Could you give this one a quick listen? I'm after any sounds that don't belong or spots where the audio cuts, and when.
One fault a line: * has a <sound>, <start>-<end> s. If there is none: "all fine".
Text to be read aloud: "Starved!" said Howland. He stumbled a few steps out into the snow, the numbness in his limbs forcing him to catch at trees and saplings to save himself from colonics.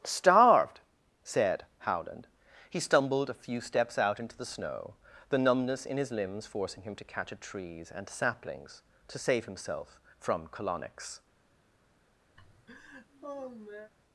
* has a laugh, 12.4-13.9 s